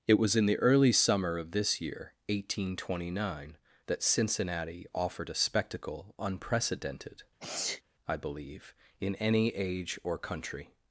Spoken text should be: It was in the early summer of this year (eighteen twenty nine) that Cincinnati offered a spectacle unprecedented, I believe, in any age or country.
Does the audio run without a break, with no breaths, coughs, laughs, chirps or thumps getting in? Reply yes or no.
no